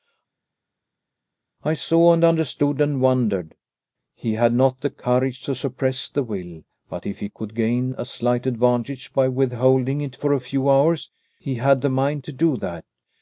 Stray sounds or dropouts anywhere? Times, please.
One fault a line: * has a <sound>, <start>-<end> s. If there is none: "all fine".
all fine